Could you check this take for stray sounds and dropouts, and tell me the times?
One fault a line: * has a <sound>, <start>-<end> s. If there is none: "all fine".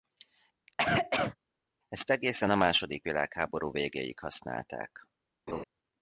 * has a cough, 0.7-1.4 s
* has a laugh, 5.5-5.6 s